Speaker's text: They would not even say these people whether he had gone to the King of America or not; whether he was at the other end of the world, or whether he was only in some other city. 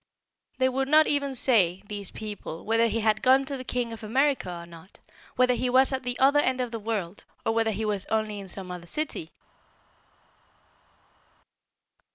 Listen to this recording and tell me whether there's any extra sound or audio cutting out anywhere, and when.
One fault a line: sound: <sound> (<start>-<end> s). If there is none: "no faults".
no faults